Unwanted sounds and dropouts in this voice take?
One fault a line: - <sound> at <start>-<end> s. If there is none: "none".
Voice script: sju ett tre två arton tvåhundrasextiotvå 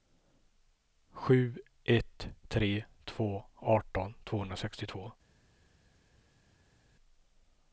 none